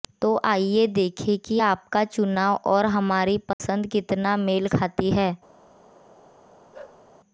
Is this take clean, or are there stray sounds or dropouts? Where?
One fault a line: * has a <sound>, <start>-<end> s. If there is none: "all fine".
* has a dropout, 3.5-3.6 s
* has a bark, 6.7-7.0 s